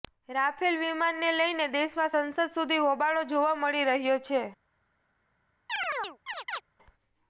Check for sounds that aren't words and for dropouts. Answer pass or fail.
fail